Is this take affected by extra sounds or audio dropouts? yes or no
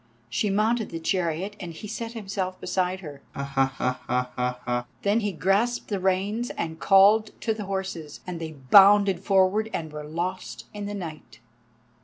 yes